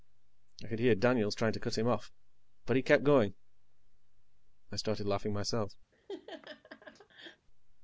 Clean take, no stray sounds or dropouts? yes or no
no